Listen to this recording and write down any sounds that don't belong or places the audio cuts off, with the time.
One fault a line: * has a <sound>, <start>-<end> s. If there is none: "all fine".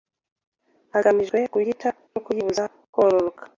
all fine